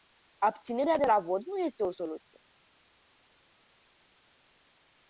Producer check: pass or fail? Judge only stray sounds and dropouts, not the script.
pass